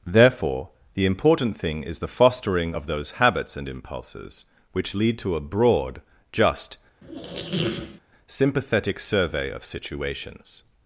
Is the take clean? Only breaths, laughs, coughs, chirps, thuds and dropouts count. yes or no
no